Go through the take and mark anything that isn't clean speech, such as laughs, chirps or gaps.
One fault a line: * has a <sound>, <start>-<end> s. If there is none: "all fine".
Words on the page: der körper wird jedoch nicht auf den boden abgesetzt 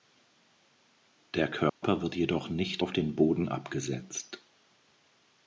* has a dropout, 1.7-1.8 s